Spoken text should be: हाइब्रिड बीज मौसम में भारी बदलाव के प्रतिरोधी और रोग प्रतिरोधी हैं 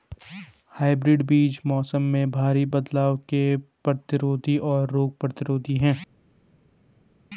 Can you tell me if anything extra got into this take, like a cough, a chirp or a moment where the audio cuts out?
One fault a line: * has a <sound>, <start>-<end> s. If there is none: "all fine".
all fine